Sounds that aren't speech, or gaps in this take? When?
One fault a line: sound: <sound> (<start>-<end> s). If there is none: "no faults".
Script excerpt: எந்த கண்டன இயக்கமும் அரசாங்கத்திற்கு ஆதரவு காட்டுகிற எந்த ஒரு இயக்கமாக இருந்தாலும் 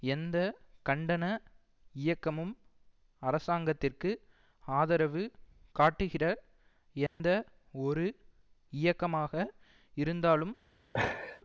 sound: dropout (7.1-7.2 s)
sound: laugh (10.9-11.4 s)